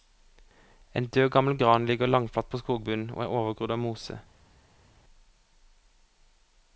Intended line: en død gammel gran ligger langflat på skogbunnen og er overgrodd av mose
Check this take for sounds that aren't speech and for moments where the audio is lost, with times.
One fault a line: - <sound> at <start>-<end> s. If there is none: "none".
none